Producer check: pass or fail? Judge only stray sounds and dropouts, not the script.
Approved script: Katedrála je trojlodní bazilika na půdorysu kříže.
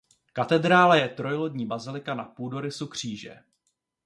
pass